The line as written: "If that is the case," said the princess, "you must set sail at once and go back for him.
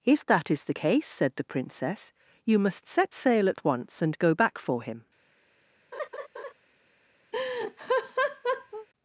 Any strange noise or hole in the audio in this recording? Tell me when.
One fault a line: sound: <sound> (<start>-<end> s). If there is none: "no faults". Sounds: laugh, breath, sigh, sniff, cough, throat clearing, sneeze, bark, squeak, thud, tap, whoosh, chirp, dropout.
sound: laugh (5.9-6.5 s)
sound: laugh (7.3-8.9 s)